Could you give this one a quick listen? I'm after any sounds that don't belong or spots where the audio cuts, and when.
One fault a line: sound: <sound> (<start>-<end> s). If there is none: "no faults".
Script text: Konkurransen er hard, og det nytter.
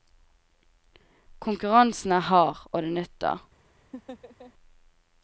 sound: laugh (3.9-4.5 s)